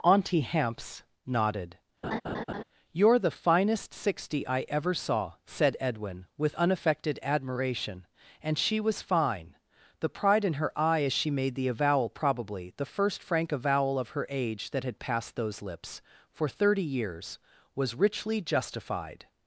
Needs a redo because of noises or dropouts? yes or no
yes